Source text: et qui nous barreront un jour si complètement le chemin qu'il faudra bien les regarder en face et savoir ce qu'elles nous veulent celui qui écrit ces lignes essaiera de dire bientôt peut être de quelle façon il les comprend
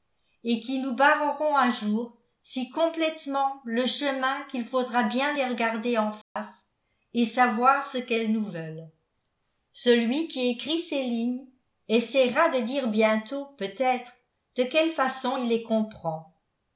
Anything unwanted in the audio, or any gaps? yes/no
yes